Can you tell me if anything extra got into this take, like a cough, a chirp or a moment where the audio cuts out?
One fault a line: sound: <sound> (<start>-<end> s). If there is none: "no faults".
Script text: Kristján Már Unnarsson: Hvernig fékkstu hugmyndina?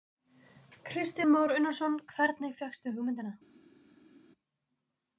no faults